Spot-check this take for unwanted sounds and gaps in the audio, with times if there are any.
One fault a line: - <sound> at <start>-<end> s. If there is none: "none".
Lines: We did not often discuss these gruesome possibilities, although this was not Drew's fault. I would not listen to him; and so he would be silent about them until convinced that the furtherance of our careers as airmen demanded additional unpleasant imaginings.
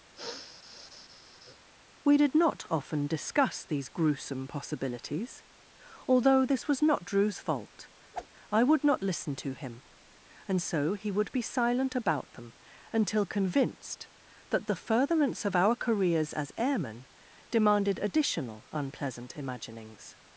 - sniff at 0.1-1.7 s
- whoosh at 8.1-8.3 s